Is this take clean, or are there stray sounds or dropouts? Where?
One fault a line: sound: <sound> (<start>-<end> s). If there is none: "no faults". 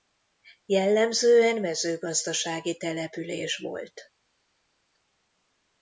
no faults